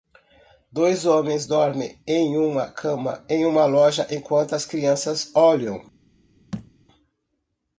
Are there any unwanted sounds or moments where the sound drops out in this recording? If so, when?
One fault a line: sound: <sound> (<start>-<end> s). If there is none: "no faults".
sound: thud (6.5-6.7 s)